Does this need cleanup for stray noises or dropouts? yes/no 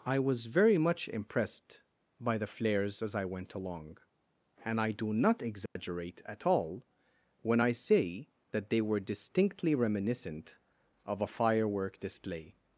yes